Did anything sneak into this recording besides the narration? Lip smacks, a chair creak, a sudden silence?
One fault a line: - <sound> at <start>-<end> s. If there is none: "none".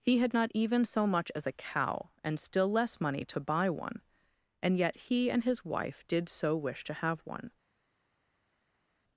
none